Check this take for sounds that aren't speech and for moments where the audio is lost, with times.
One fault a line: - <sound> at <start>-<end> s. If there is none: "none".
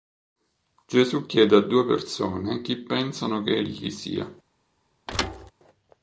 - thud at 5.1-5.5 s